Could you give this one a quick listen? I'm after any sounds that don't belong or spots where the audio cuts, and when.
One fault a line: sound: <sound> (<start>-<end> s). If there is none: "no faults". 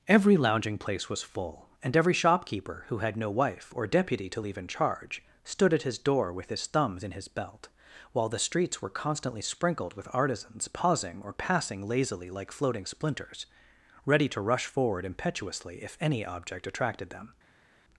no faults